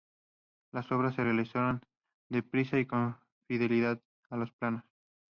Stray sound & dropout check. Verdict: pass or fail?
pass